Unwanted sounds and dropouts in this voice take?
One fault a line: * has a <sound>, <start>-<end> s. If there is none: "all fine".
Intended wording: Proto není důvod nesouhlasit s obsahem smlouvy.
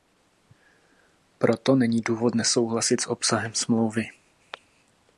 all fine